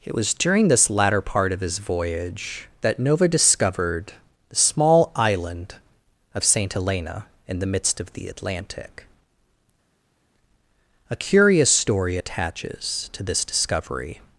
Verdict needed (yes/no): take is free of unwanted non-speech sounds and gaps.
yes